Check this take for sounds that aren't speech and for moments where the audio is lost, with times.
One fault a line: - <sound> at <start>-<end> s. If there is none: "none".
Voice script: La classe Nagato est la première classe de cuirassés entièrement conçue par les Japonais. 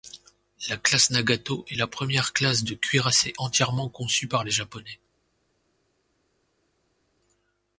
none